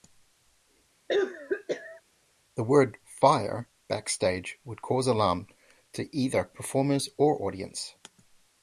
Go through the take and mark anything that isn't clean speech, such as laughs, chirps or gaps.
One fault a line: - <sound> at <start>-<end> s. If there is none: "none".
- cough at 1.1-2.0 s